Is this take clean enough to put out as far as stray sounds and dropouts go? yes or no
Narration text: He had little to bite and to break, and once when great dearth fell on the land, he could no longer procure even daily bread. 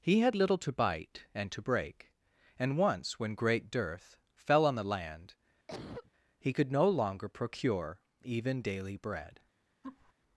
no